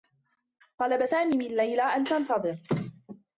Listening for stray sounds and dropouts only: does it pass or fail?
pass